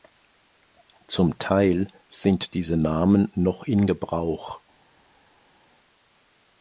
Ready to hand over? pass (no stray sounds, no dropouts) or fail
pass